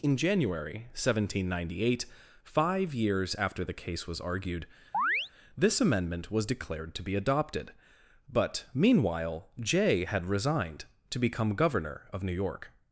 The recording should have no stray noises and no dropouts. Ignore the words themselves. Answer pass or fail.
fail